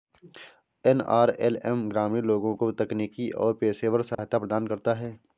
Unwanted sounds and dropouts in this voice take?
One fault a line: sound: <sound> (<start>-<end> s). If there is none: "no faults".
sound: dropout (4.1-4.2 s)